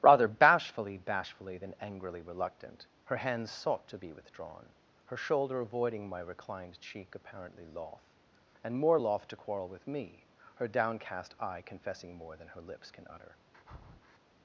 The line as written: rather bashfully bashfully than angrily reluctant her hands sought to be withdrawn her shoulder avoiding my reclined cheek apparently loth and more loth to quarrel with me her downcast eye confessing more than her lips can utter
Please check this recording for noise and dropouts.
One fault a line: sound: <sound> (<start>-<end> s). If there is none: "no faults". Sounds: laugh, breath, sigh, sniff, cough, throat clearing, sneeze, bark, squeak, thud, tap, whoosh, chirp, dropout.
sound: breath (13.5-14.2 s)